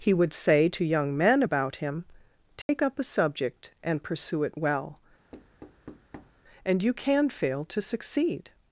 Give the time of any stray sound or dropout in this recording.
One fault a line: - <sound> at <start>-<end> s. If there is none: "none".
- dropout at 2.6-2.7 s
- thud at 5.3-6.4 s